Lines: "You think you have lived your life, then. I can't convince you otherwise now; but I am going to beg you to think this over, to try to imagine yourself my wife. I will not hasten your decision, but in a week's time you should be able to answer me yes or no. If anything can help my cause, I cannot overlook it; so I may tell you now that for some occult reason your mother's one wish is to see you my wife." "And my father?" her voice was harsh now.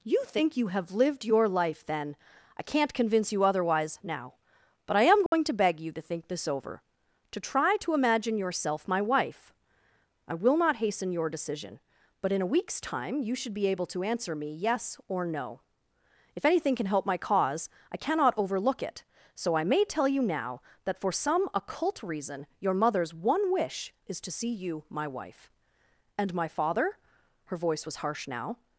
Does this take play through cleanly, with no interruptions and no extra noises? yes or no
no